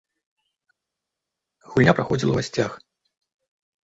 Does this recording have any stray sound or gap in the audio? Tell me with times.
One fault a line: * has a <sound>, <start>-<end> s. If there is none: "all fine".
all fine